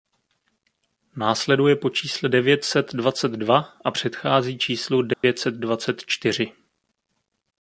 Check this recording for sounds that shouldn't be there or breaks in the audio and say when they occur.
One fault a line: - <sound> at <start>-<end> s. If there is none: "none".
- dropout at 5.1-5.2 s